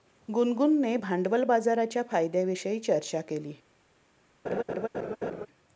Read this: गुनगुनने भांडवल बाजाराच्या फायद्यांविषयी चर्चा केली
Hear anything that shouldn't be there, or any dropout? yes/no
yes